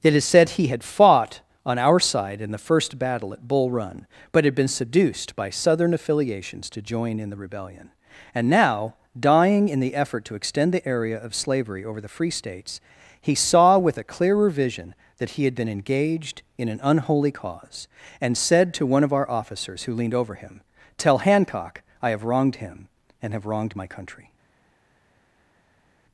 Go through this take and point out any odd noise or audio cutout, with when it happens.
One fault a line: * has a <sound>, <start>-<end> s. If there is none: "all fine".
all fine